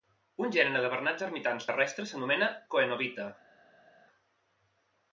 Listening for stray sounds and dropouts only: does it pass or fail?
pass